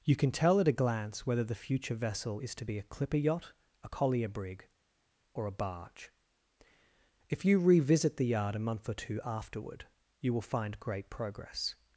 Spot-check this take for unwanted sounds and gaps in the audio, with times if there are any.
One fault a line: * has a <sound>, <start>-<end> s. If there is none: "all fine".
all fine